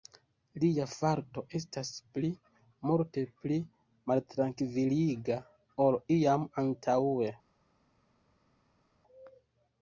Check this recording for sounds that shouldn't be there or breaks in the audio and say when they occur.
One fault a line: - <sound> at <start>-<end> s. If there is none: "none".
none